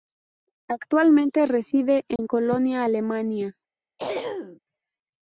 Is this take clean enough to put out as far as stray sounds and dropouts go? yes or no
no